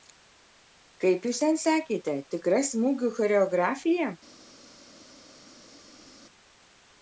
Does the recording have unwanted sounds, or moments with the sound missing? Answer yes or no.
no